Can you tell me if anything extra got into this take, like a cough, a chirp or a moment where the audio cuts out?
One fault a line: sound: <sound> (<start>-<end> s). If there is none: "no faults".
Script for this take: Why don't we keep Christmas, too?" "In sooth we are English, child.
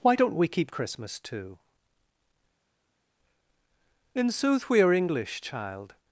no faults